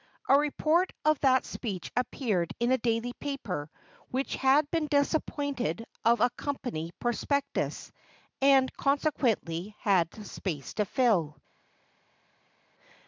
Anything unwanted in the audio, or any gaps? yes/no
no